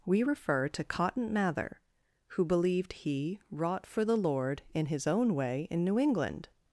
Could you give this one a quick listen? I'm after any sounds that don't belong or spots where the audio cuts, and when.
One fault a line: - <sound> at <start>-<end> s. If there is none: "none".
none